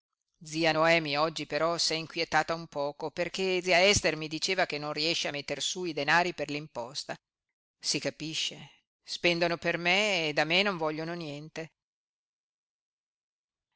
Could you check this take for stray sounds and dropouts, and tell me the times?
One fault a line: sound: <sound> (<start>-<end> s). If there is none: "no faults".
no faults